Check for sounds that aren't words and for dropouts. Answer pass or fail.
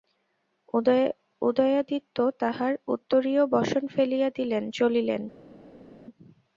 pass